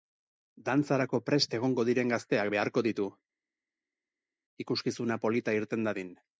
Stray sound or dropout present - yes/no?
no